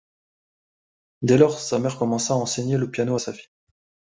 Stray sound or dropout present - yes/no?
no